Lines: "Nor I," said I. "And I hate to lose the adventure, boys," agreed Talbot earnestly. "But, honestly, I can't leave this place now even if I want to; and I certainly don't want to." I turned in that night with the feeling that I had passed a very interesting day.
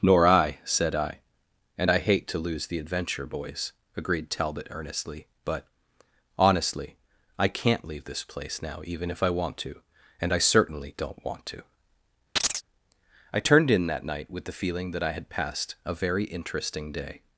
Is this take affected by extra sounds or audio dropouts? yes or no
yes